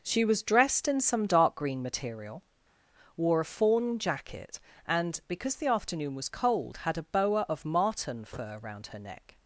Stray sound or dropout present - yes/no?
no